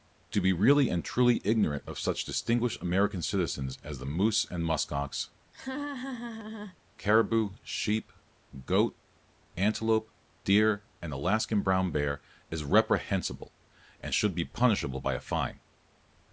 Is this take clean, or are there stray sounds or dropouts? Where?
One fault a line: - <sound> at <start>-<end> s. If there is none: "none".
- laugh at 5.5-6.8 s